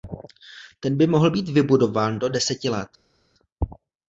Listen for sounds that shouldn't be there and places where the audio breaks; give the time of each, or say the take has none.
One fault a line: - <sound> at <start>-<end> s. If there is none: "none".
none